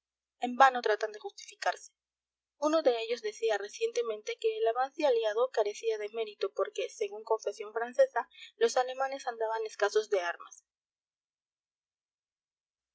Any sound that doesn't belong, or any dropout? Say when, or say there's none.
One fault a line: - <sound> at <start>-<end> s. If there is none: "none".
none